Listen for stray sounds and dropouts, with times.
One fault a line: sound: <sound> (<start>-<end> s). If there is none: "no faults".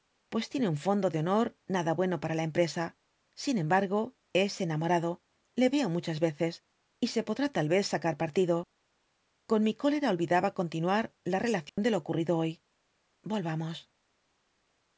sound: dropout (11.7-11.8 s)